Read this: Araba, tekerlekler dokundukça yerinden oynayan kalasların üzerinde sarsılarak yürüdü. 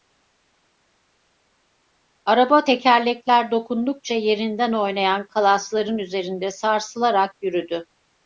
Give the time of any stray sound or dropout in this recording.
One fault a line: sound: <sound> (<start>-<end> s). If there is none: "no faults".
no faults